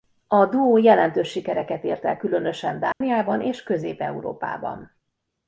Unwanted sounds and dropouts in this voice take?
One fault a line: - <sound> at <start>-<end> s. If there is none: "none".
- dropout at 2.9-3.0 s